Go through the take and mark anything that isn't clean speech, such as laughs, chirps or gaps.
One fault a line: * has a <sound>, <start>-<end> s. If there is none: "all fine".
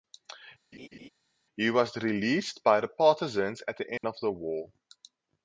* has a laugh, 0.7-1.1 s
* has a dropout, 4.0-4.0 s